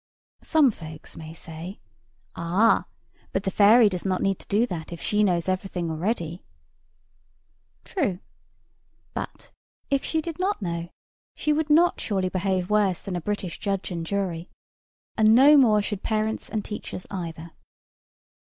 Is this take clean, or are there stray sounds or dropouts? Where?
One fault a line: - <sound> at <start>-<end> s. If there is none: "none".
none